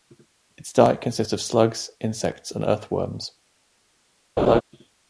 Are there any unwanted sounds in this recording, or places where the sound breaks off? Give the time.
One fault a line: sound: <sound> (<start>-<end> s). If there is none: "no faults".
sound: laugh (4.4-4.6 s)